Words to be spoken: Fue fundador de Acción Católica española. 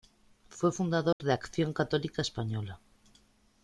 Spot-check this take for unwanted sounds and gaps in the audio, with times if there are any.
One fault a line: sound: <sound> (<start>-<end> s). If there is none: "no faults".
sound: dropout (1.1-1.2 s)